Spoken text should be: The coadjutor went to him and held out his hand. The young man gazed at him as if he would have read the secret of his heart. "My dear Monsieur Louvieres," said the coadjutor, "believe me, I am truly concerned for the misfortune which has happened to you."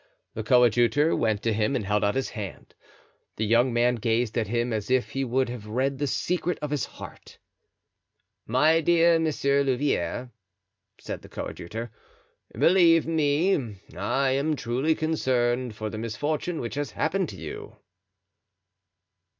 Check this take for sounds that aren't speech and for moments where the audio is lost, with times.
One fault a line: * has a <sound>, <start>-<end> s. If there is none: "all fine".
all fine